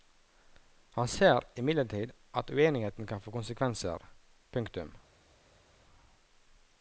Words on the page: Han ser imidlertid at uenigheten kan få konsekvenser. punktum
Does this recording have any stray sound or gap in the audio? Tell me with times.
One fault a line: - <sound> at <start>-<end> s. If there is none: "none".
none